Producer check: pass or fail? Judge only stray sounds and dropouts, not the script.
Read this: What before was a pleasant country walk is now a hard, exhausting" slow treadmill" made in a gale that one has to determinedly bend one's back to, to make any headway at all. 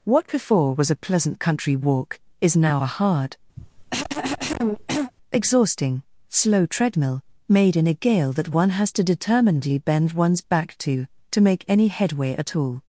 fail